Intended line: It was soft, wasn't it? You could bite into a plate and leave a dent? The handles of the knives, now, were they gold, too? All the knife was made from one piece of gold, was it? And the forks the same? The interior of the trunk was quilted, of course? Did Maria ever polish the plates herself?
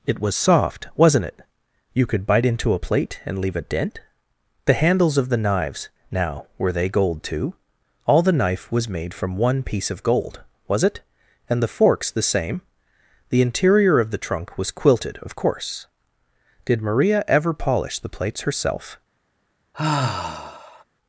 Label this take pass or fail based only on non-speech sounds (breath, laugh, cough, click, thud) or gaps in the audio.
fail